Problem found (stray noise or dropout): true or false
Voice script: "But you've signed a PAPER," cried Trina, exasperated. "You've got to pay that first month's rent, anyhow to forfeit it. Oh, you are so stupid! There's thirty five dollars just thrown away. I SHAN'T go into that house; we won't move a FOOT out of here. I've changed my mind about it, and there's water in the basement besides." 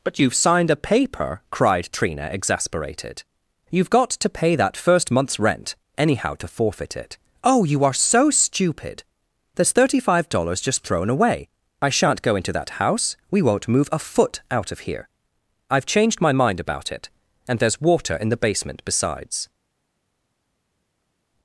false